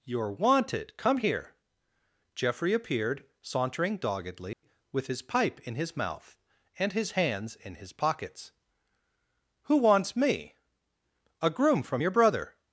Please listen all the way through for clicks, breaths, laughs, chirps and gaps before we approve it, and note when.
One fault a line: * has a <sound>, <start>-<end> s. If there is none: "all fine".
* has a dropout, 4.5-4.6 s